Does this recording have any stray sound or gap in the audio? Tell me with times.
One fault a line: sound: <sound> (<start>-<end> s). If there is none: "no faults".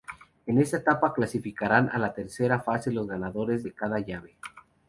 no faults